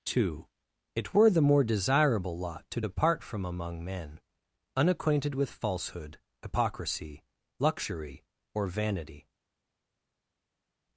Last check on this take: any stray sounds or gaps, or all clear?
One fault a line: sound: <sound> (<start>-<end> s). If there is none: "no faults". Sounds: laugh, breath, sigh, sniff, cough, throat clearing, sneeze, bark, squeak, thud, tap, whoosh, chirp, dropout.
no faults